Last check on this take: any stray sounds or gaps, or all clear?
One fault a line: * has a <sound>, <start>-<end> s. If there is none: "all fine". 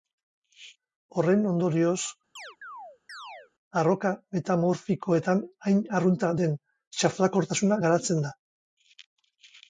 * has a chirp, 2.4-3.5 s